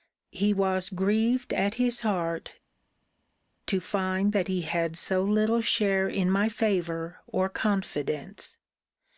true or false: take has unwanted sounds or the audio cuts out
false